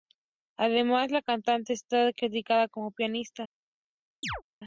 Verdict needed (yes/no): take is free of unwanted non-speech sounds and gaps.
no